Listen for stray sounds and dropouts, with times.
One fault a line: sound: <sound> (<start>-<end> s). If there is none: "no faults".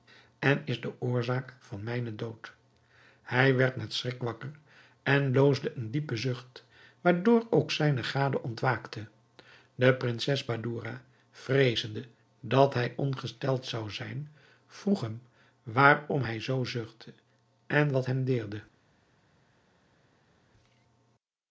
no faults